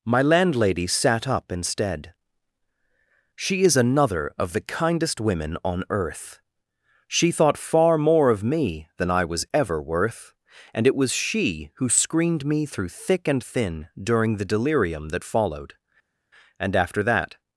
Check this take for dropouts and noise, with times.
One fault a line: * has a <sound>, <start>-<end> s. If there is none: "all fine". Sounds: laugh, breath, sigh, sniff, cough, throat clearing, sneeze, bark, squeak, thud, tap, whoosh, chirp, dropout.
all fine